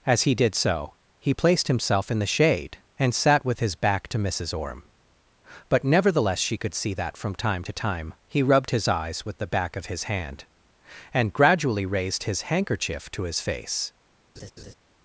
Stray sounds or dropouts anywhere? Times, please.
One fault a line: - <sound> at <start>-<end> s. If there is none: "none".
- laugh at 14.4-14.7 s